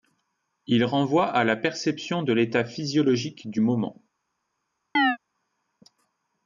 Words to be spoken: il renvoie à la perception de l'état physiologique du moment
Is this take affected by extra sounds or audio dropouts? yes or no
yes